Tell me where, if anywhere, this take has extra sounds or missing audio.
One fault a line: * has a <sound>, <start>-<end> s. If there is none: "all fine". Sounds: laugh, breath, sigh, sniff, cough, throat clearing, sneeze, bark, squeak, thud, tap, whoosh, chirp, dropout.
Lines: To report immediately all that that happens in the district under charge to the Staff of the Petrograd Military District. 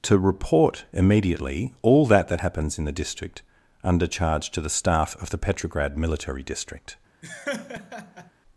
* has a laugh, 7.2-8.3 s